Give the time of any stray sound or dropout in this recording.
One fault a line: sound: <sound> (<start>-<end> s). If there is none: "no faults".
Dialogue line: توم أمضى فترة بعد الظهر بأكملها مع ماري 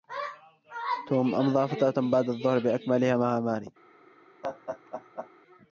sound: laugh (4.4-5.3 s)